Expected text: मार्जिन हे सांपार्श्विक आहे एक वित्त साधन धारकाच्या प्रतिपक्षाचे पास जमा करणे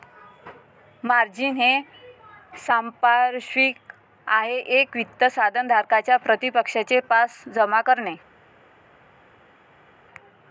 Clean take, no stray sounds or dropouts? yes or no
yes